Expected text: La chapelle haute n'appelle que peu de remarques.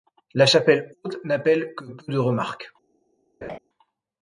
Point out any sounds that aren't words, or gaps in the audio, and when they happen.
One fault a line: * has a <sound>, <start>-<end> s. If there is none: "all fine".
* has a laugh, 3.4-3.6 s